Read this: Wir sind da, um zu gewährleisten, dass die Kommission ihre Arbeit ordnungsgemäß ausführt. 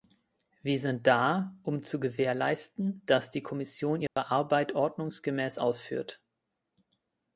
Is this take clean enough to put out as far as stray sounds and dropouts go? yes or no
no